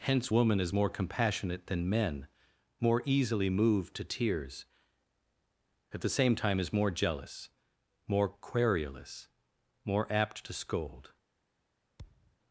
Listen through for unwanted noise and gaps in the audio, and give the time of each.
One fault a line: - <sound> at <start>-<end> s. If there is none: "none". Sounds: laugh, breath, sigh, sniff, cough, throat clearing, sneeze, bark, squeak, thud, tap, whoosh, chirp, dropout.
- thud at 12.0-12.4 s